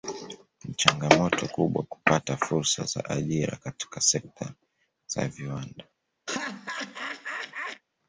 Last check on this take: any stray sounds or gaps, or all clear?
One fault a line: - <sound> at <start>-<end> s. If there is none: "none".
- laugh at 6.3-7.8 s